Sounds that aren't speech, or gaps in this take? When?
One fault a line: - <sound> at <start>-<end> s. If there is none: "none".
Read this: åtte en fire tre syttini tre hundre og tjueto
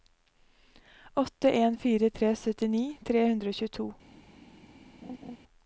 - laugh at 5.0-5.4 s